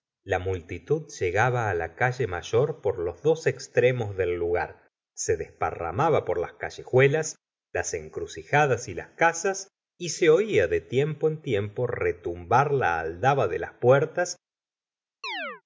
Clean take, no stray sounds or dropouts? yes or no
no